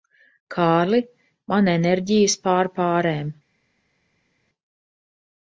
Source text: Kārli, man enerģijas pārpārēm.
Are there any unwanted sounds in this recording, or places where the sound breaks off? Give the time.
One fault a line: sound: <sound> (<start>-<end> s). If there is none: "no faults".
no faults